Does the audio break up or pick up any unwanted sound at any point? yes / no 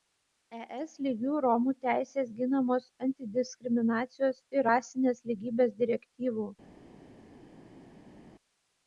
no